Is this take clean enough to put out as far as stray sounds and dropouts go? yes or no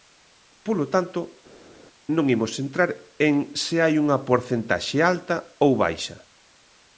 yes